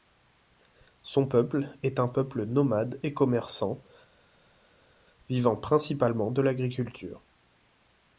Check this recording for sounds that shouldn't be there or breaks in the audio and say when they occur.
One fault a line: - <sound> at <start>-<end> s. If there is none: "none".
none